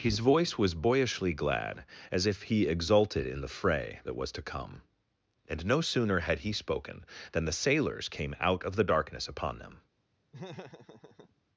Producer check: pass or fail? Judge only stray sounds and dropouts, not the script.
fail